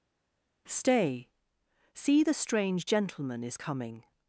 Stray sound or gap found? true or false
false